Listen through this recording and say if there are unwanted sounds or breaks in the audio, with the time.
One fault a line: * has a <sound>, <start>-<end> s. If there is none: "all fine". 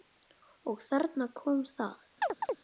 * has a chirp, 2.2-2.6 s